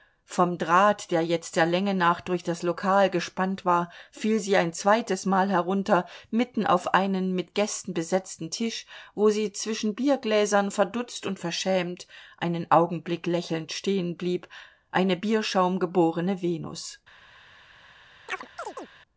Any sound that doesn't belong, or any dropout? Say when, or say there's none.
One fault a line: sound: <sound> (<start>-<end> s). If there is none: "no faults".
sound: chirp (18.3-18.9 s)